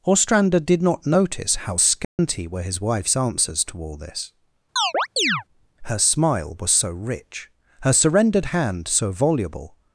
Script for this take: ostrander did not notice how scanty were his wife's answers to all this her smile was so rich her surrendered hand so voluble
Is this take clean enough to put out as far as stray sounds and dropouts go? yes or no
no